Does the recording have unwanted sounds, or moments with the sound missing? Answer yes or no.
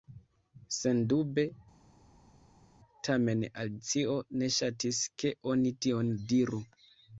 no